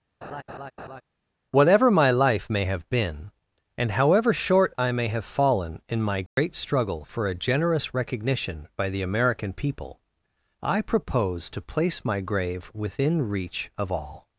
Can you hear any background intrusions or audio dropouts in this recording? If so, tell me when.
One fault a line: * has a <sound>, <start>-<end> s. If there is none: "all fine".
* has a laugh, 0.2-1.0 s
* has a dropout, 6.3-6.4 s